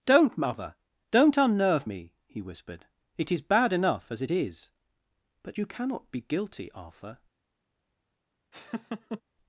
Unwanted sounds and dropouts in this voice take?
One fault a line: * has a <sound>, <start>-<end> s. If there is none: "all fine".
* has a laugh, 8.5-9.2 s